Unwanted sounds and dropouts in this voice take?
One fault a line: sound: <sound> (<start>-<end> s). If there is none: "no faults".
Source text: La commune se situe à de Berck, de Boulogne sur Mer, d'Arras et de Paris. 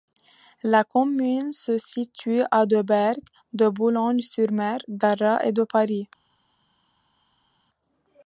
no faults